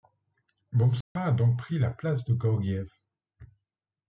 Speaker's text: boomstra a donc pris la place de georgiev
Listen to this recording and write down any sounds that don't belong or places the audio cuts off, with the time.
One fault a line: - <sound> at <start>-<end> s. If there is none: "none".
- dropout at 1.0-1.2 s